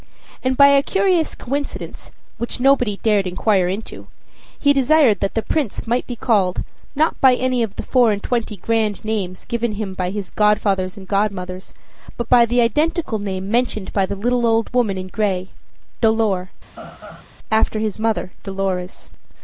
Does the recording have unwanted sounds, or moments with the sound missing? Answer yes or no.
yes